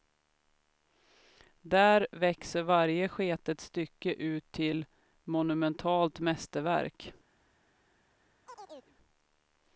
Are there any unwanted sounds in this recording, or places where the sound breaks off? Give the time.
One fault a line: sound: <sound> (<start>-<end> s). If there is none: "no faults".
sound: chirp (8.5-9.0 s)